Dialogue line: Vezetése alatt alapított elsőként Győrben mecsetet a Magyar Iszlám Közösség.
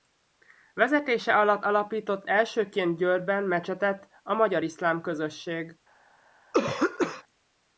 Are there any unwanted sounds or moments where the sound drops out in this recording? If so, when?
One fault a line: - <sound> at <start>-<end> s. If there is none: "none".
- throat clearing at 6.5-7.2 s